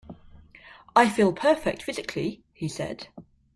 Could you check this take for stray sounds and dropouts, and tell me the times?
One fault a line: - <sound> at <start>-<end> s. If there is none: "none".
none